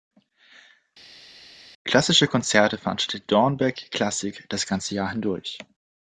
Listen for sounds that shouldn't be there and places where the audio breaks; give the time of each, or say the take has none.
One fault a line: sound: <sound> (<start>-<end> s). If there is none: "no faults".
no faults